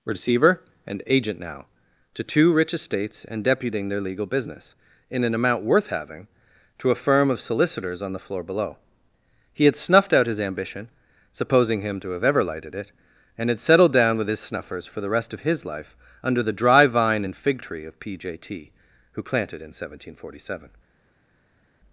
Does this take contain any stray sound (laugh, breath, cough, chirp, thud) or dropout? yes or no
no